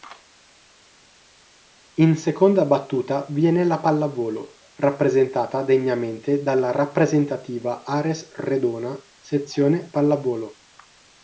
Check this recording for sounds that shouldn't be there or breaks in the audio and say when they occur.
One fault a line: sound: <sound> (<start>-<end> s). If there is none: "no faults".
no faults